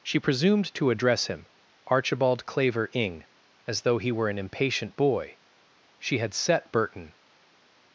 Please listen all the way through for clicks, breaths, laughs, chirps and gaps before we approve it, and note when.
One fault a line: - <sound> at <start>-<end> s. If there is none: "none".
none